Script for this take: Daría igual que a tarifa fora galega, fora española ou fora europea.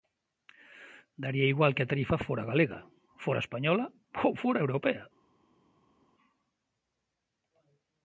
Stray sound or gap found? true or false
false